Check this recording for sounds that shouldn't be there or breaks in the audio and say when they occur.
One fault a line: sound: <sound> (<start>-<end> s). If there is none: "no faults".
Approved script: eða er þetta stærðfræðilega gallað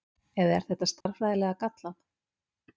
sound: dropout (1.0-1.1 s)